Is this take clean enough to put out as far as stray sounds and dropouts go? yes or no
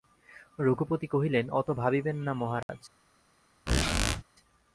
no